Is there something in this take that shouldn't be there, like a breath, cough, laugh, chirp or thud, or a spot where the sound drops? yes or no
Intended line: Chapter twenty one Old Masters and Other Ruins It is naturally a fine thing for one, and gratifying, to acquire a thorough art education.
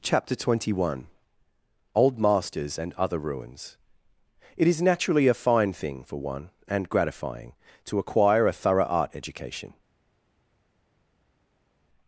no